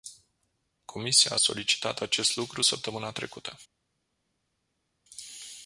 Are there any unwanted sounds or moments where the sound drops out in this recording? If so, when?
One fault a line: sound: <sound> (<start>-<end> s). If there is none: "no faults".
no faults